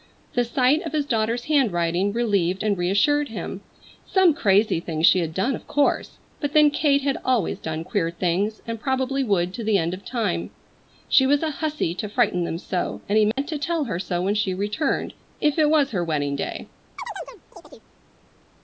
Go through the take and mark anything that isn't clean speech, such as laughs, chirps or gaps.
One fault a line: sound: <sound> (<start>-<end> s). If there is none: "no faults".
sound: dropout (13.3-13.4 s)
sound: chirp (17.0-17.9 s)